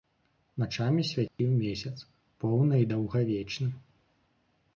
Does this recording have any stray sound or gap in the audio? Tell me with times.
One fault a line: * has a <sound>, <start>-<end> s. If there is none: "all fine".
* has a dropout, 1.3-1.4 s